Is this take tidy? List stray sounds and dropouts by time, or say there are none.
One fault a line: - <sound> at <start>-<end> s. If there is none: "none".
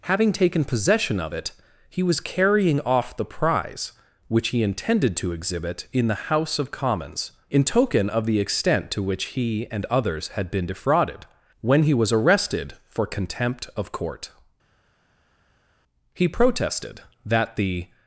none